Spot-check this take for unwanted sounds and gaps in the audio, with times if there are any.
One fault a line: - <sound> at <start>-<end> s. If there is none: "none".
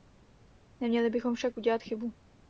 none